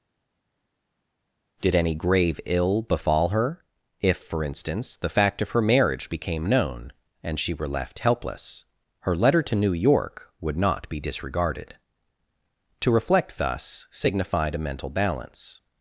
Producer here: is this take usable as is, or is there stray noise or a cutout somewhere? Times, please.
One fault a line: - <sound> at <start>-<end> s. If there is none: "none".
none